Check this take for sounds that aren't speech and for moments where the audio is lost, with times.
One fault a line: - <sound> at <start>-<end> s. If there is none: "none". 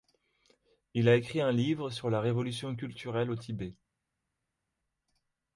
none